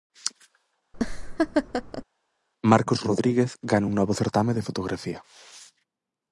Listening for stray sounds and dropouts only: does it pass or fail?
fail